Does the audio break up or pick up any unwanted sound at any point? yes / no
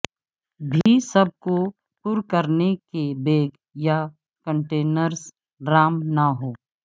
yes